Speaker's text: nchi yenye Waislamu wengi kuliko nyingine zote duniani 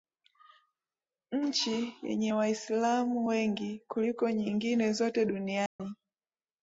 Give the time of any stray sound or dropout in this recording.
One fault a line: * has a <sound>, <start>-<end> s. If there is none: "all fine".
* has a dropout, 5.7-5.8 s